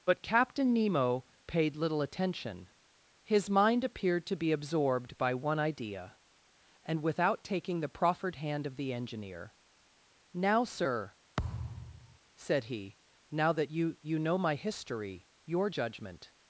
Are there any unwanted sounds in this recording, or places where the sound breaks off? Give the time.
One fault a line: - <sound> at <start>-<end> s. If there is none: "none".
- thud at 11.4-12.2 s